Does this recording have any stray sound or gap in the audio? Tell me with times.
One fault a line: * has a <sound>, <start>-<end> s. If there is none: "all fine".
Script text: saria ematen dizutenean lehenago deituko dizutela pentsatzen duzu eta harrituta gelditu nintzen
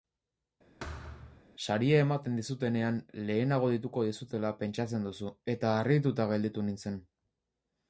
* has a thud, 0.8-1.4 s